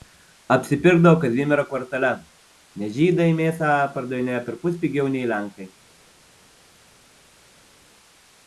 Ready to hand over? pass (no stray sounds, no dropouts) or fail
pass